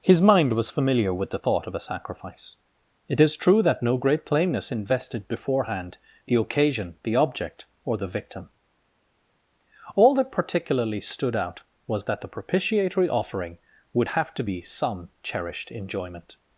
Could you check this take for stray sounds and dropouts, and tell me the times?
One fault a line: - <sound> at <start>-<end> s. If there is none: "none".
none